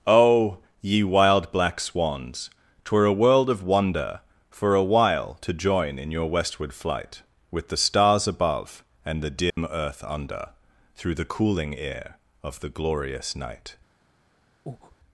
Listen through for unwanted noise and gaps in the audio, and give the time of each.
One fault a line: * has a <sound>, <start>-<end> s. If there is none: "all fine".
* has a dropout, 9.5-9.6 s
* has a breath, 14.7-15.0 s